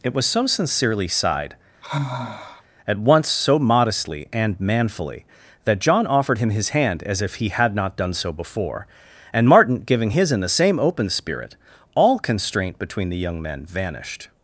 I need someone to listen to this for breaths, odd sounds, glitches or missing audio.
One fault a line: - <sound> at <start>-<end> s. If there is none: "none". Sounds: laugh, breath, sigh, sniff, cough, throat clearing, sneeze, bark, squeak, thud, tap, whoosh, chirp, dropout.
- sigh at 1.8-2.6 s